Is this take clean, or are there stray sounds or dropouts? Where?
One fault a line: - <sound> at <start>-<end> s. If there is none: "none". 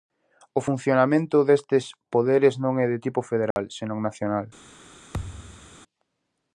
- dropout at 3.5-3.6 s
- thud at 5.1-5.8 s